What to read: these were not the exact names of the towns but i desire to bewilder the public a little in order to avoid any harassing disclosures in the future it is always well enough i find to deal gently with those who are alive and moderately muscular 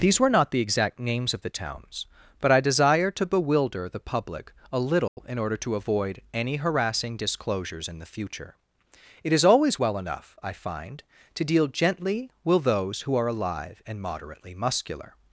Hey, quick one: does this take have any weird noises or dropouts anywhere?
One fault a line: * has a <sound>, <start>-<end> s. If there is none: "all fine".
* has a dropout, 5.1-5.2 s